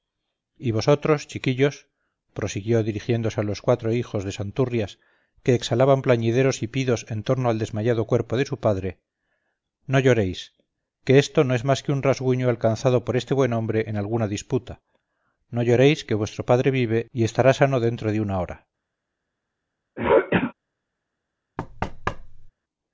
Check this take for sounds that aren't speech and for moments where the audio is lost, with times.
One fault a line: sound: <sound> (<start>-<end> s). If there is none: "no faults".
sound: throat clearing (20.0-20.5 s)
sound: thud (21.6-22.5 s)